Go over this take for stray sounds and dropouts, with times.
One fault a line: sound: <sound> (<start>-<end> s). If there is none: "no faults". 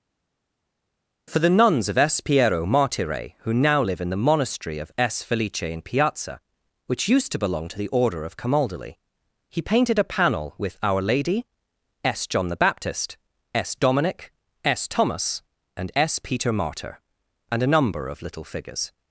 no faults